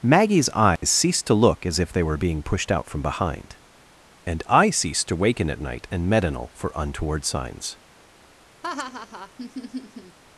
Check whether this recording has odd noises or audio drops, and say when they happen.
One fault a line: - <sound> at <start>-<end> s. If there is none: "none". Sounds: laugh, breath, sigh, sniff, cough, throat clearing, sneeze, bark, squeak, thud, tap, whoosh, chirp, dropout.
- dropout at 0.8-0.8 s
- laugh at 8.6-10.2 s